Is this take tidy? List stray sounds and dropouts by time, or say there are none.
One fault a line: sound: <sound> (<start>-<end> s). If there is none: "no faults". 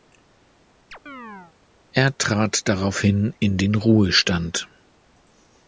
sound: chirp (0.9-1.5 s)